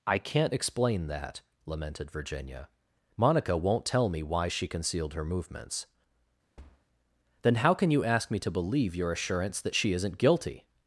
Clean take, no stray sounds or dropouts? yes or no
no